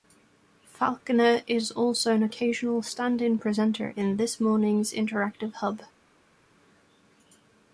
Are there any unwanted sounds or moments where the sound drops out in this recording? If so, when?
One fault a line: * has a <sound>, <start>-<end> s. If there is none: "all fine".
all fine